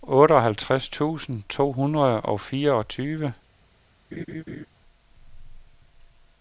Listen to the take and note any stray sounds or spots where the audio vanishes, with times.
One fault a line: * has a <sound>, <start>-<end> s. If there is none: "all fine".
* has a laugh, 4.1-4.7 s